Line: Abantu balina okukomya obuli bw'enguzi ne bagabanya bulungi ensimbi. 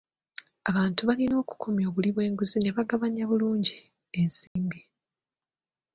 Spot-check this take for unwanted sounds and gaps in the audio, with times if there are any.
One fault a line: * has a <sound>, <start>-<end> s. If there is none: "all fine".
* has a dropout, 4.5-4.6 s